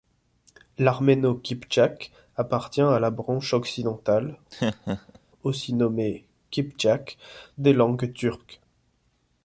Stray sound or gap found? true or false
true